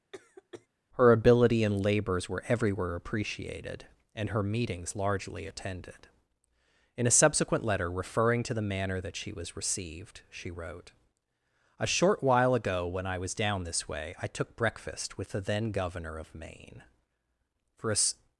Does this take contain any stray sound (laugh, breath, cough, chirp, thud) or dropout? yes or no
yes